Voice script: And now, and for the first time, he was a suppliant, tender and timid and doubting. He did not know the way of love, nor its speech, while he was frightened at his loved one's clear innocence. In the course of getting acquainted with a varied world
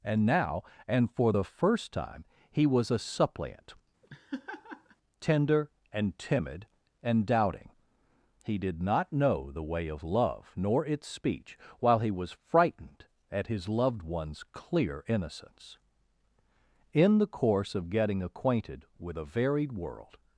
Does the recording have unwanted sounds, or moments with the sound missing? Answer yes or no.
yes